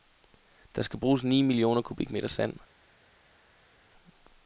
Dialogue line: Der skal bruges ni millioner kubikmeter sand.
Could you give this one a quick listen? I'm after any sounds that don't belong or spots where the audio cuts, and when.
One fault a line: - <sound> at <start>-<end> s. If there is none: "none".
none